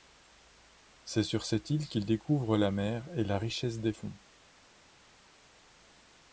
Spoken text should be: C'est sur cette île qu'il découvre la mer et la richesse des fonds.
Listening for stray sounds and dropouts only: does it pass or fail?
pass